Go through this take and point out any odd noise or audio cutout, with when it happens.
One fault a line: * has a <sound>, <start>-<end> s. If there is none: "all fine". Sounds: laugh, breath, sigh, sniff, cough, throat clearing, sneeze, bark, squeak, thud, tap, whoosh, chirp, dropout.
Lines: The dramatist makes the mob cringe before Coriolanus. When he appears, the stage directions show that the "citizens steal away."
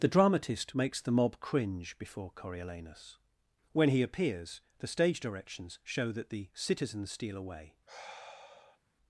* has a sigh, 7.9-8.8 s